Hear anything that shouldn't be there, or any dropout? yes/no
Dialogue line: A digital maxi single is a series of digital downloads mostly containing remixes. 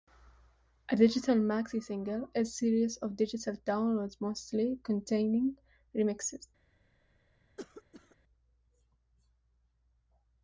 yes